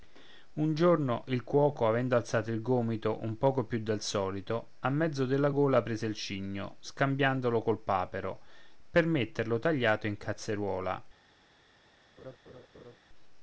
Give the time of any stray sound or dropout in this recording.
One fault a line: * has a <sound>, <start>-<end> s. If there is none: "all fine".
* has a laugh, 12.2-13.0 s